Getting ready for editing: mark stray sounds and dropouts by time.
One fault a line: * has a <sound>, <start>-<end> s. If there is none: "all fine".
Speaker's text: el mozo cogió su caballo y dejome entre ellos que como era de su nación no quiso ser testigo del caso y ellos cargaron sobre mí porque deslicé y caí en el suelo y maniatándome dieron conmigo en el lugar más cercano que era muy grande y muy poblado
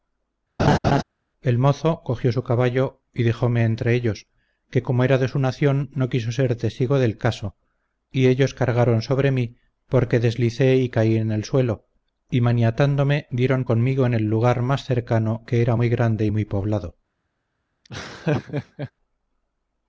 * has a laugh, 0.6-1.0 s
* has a laugh, 17.8-18.9 s